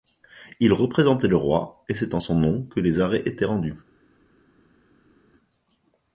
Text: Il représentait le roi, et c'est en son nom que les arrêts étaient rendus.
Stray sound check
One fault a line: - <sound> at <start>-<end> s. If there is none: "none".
none